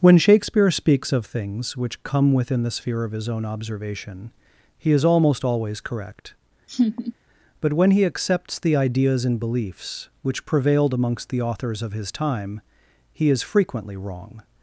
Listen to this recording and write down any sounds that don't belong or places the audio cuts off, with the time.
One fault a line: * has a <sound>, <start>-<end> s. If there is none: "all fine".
* has a laugh, 6.7-7.1 s